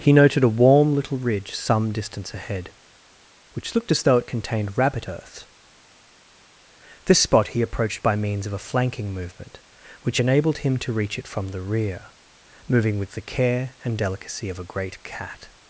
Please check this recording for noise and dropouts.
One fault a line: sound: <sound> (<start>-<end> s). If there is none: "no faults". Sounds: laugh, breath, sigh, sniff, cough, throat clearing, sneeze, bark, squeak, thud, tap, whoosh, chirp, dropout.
no faults